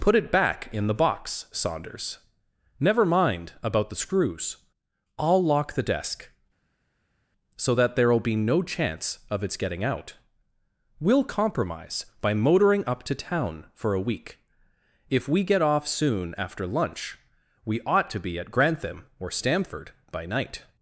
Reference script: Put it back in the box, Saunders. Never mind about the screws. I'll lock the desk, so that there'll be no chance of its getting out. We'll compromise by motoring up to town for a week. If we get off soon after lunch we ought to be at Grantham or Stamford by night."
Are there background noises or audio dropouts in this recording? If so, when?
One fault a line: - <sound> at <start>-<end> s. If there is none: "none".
none